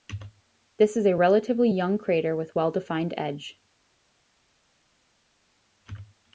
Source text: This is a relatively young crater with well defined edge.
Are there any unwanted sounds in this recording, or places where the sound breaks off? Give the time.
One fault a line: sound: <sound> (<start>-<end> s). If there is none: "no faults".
no faults